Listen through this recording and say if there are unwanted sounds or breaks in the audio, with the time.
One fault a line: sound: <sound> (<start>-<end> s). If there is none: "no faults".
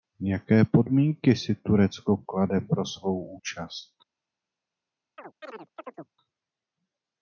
sound: chirp (5.2-6.1 s)